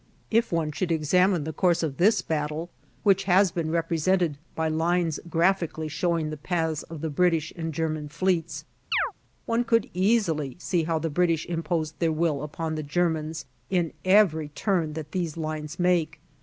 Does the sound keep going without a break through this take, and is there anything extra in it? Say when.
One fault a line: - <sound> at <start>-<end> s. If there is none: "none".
- chirp at 8.9-9.1 s